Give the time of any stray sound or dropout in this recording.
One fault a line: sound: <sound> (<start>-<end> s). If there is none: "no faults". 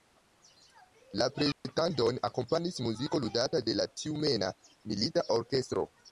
sound: dropout (1.5-1.6 s)